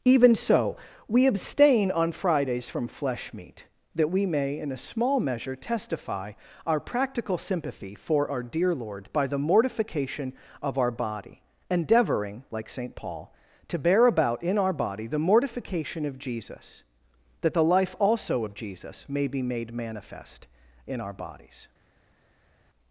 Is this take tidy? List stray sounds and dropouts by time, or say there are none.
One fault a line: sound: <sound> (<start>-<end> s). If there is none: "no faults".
no faults